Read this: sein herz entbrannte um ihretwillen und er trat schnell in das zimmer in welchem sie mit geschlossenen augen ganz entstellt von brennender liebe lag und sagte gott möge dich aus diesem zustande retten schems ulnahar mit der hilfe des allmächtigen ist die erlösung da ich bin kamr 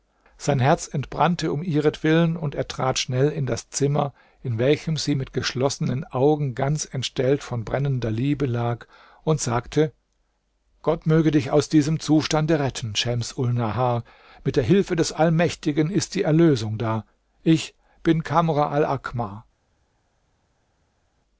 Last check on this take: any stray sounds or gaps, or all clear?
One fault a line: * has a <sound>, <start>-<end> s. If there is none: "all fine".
all fine